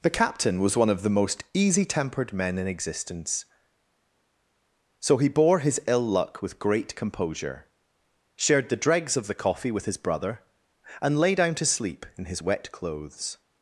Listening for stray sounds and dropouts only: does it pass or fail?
pass